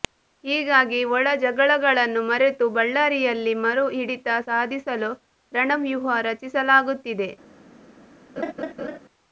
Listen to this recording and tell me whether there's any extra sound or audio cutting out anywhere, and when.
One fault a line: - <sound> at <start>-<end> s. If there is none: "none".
- laugh at 8.4-9.0 s